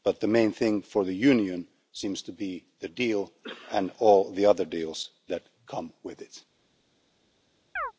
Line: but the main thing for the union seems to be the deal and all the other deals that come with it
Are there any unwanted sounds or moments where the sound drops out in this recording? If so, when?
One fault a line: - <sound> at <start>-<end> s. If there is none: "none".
- chirp at 7.8-7.9 s